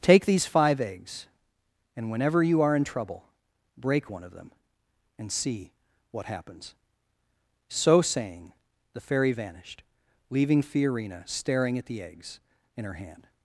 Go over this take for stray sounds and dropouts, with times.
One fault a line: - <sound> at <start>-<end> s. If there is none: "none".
none